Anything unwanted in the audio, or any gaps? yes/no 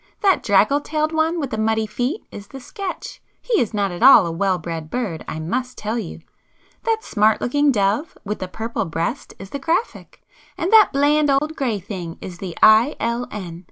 yes